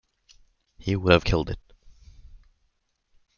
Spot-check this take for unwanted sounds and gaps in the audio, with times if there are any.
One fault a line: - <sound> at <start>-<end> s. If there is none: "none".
none